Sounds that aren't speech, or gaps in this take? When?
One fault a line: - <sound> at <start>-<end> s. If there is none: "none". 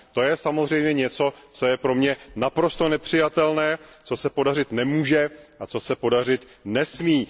none